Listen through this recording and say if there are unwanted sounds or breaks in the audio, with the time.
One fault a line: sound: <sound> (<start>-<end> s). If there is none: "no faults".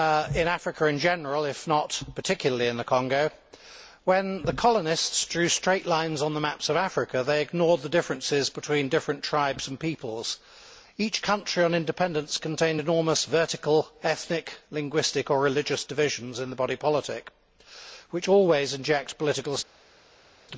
no faults